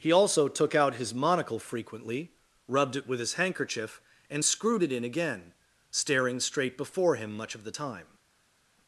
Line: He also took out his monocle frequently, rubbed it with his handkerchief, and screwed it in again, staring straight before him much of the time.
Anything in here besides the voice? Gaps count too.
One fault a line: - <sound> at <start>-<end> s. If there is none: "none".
none